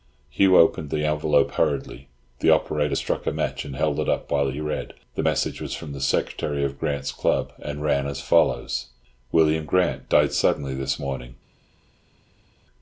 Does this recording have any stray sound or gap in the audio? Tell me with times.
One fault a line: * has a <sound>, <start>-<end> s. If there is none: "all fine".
all fine